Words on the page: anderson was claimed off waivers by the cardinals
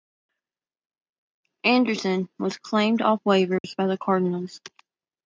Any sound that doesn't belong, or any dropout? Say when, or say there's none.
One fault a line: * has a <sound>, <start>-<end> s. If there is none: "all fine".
* has a dropout, 3.6-3.6 s